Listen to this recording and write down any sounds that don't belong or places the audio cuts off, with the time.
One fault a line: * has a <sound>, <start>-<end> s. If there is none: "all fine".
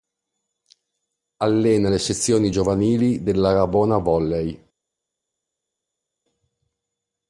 all fine